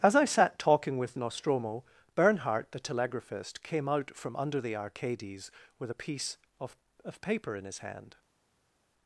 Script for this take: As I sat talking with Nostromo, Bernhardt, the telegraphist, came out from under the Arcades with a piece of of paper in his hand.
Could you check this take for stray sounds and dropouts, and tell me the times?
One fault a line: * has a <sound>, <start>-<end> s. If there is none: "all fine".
all fine